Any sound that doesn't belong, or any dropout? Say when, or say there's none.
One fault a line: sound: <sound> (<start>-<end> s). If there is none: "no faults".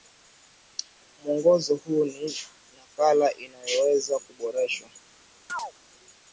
sound: chirp (5.5-5.7 s)